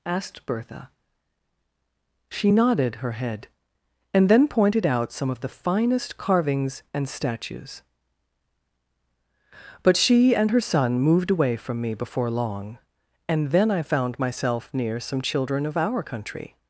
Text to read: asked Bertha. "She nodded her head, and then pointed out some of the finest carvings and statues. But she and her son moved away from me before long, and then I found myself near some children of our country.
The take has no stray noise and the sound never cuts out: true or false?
true